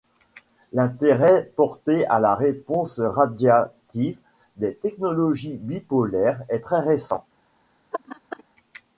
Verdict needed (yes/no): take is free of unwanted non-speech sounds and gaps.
no